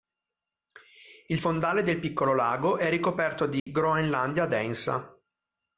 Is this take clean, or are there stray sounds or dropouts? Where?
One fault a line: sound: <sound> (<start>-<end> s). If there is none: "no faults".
sound: dropout (3.6-3.7 s)